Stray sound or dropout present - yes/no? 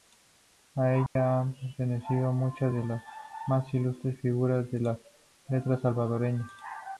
yes